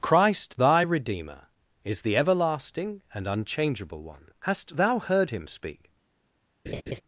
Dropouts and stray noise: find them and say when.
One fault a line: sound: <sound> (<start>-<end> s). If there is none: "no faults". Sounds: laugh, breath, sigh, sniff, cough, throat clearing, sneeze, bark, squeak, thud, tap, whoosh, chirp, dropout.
sound: laugh (6.7-7.0 s)